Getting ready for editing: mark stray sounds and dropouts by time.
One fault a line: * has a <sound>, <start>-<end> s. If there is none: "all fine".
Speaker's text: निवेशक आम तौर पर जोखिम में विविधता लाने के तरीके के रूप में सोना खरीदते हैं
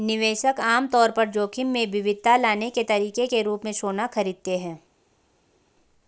all fine